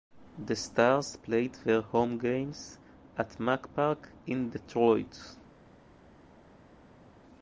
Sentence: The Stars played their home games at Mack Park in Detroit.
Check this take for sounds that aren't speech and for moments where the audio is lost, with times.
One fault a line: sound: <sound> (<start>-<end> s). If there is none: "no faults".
no faults